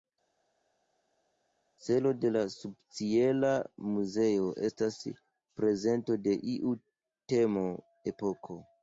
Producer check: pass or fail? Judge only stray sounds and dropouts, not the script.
pass